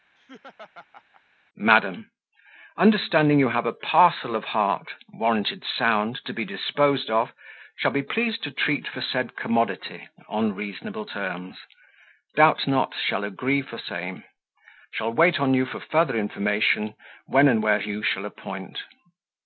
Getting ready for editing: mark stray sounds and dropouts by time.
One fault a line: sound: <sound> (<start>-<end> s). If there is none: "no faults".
sound: laugh (0.2-1.2 s)